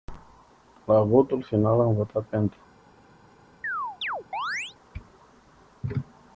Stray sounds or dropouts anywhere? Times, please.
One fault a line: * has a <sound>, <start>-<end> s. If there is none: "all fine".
* has a chirp, 3.6-4.8 s